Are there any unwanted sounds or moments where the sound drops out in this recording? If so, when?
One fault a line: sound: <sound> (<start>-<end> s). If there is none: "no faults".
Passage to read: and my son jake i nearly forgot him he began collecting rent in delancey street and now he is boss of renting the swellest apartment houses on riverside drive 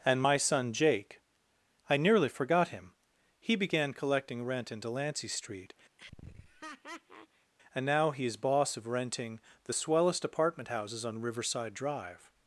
sound: laugh (6.0-7.5 s)